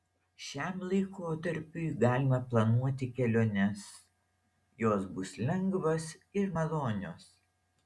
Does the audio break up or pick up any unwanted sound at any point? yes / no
no